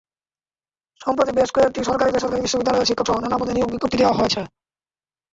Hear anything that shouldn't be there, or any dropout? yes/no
no